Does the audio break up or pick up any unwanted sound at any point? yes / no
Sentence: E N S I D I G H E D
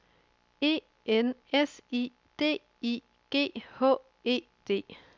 no